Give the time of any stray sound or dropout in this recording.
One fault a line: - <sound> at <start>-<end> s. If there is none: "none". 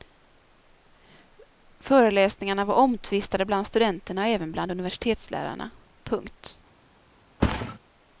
- thud at 7.4-7.8 s